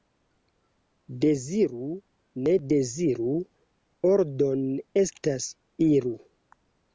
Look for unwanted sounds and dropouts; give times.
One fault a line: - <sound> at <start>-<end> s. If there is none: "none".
none